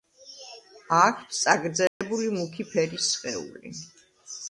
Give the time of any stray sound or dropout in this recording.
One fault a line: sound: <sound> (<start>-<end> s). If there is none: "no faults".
sound: dropout (1.9-2.0 s)